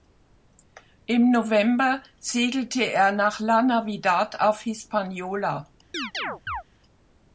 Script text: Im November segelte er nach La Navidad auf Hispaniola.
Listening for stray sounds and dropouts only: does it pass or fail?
fail